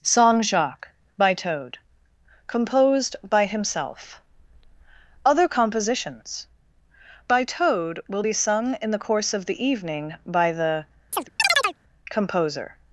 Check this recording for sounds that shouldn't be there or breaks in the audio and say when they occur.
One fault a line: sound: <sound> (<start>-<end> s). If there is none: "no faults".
sound: chirp (11.1-11.8 s)